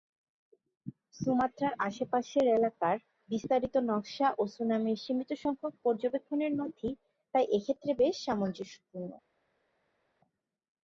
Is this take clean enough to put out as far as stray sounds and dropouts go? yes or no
yes